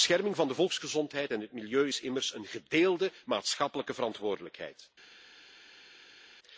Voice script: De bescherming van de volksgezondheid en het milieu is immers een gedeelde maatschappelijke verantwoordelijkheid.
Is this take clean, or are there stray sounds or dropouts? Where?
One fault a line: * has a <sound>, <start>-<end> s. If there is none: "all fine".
all fine